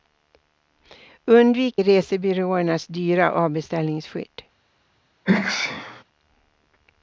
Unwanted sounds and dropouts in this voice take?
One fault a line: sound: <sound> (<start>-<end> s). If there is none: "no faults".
sound: sneeze (5.3-6.0 s)